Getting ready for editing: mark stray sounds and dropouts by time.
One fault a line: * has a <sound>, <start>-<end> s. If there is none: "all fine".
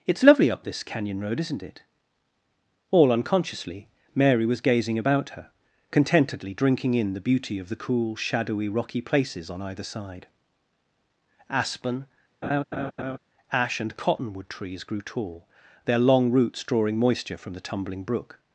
* has a laugh, 12.4-13.2 s